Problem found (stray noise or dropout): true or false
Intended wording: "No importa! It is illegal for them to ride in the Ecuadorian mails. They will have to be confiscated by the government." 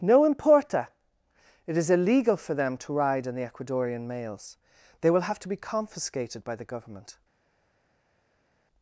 false